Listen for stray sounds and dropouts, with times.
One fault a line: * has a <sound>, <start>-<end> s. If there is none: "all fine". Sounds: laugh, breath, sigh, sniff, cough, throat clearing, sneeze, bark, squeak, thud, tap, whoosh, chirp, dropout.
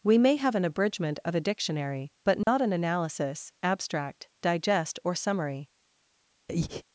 * has a dropout, 2.4-2.5 s
* has a breath, 6.5-6.8 s